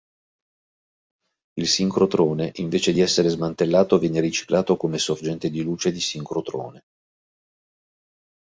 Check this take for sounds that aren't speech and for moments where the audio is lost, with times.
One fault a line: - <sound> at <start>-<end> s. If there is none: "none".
none